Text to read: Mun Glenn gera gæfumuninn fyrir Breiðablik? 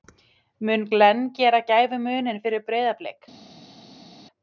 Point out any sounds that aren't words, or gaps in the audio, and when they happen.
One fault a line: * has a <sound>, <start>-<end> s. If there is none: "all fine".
all fine